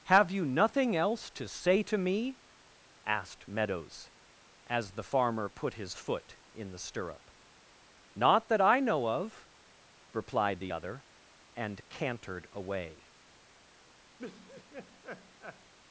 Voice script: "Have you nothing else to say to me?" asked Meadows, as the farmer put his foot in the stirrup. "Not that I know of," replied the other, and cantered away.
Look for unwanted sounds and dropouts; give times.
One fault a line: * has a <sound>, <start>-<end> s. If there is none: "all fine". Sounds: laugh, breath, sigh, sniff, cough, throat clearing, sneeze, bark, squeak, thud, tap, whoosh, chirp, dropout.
* has a laugh, 14.2-15.7 s